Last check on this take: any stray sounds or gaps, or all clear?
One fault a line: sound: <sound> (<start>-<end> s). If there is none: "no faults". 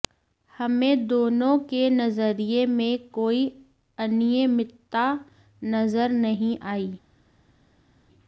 no faults